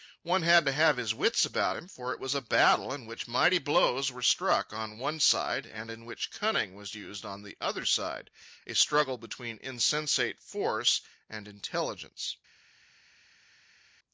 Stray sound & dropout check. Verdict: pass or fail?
pass